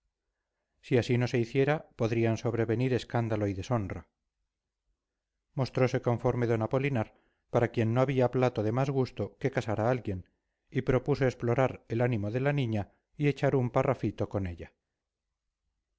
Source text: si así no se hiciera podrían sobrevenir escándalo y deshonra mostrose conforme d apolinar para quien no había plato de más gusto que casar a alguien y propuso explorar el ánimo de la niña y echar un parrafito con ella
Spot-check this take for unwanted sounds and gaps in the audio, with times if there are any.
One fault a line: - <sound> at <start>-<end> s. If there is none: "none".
none